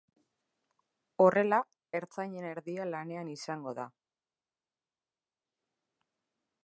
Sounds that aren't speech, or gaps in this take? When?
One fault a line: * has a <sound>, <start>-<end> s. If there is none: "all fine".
all fine